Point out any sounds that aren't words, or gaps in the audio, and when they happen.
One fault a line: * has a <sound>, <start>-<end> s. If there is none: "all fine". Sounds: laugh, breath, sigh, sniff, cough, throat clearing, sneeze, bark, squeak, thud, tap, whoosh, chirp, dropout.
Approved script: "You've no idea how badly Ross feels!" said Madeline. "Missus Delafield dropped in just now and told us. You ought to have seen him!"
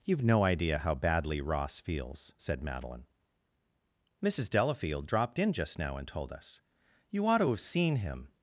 all fine